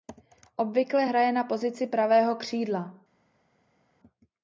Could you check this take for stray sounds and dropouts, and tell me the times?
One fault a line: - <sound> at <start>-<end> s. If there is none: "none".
none